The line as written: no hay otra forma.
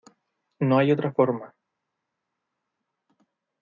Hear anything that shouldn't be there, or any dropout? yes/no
no